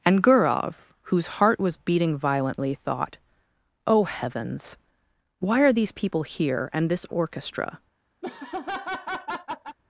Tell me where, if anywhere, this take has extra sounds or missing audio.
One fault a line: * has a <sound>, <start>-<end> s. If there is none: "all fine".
* has a laugh, 8.2-9.8 s